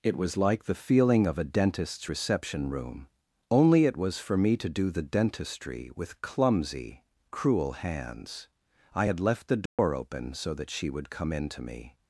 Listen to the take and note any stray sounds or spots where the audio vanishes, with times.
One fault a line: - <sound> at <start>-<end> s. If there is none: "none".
- dropout at 9.7-9.8 s